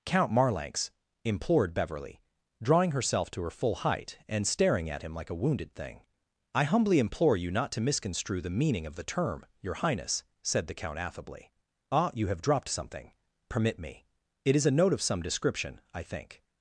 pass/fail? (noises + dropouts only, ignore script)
pass